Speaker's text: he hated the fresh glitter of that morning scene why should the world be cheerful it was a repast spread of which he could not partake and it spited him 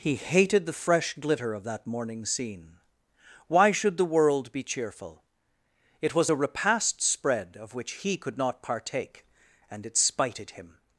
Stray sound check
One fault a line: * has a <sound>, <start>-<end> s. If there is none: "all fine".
all fine